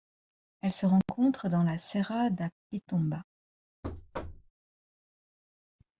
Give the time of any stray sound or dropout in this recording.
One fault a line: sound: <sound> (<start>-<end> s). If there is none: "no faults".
sound: thud (3.8-4.5 s)